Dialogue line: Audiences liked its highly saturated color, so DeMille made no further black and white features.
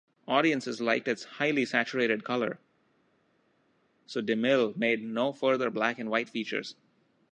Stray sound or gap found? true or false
false